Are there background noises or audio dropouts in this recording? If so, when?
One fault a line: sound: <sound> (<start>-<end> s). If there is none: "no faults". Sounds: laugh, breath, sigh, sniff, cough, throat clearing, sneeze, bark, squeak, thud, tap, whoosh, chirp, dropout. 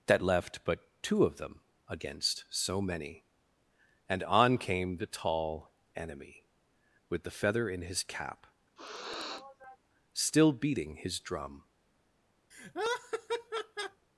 sound: sniff (8.8-9.8 s)
sound: laugh (12.5-14.1 s)